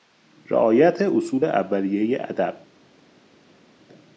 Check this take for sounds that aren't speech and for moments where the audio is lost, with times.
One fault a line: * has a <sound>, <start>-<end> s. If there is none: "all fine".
all fine